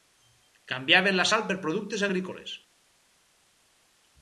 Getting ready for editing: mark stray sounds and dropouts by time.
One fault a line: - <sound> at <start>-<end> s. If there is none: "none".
none